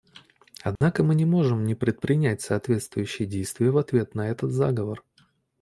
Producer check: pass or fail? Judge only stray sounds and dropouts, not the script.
fail